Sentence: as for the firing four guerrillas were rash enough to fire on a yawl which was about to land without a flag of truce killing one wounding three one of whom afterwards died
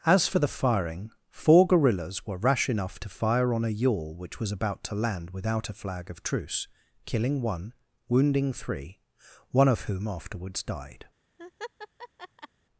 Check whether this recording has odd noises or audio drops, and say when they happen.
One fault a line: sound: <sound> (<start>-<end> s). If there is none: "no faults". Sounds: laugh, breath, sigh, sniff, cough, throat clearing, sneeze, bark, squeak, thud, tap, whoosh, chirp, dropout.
sound: laugh (11.4-12.5 s)